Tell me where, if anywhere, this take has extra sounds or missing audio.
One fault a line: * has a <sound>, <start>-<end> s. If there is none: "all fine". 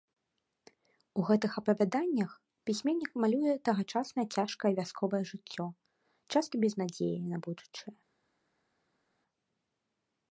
all fine